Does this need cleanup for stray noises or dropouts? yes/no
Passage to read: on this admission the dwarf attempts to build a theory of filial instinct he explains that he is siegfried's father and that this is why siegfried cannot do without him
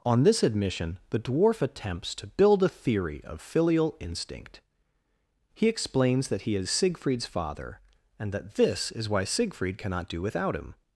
no